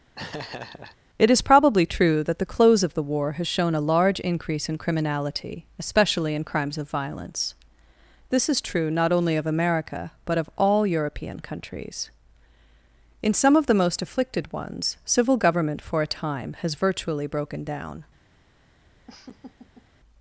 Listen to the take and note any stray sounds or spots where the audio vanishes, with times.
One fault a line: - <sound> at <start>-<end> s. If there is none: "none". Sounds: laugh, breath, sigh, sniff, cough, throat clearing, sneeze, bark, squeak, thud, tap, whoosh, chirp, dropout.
- laugh at 0.2-1.0 s
- laugh at 19.1-19.9 s